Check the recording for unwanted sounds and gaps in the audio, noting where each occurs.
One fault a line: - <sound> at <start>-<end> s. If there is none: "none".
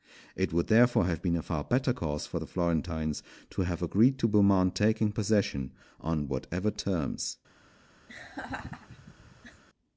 - laugh at 8.1-9.6 s